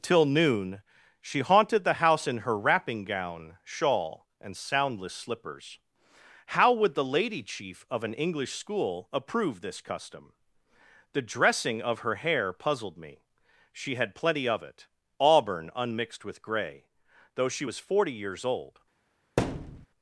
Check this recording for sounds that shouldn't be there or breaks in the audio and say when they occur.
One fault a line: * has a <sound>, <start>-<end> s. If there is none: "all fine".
* has a thud, 19.4-19.9 s